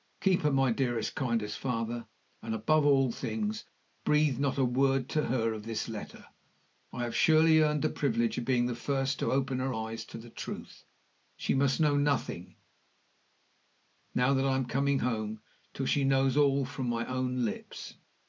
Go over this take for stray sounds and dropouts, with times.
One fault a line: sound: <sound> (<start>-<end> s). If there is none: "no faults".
no faults